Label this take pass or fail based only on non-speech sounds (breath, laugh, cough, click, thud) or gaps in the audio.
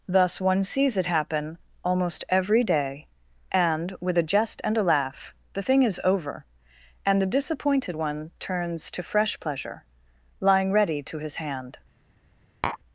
fail